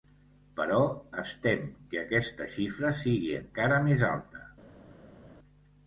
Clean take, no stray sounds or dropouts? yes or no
yes